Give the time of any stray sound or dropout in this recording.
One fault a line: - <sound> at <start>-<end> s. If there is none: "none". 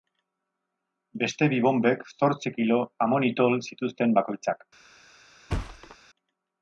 - thud at 5.5-6.0 s